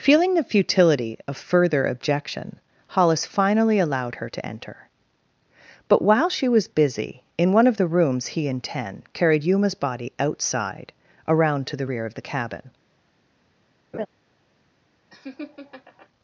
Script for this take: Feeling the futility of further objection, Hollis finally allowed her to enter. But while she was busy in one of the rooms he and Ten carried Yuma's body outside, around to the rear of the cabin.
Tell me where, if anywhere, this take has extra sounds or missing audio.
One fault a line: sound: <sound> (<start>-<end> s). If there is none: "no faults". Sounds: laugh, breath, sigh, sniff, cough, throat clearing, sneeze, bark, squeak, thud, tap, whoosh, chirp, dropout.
sound: laugh (13.9-14.1 s)
sound: laugh (15.1-16.1 s)